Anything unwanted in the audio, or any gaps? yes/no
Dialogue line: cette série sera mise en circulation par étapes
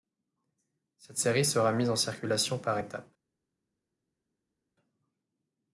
no